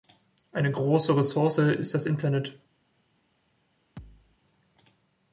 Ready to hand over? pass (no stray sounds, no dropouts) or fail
fail